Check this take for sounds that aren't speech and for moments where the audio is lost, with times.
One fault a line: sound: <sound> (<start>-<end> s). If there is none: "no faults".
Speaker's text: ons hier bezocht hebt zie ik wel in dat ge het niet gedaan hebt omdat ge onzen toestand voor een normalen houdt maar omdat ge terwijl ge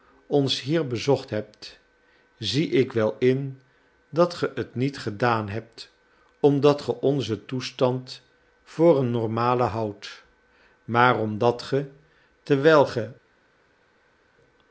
no faults